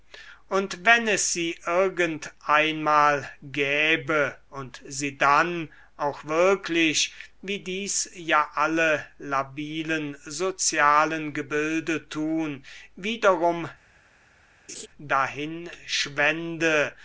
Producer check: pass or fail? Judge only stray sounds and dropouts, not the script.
fail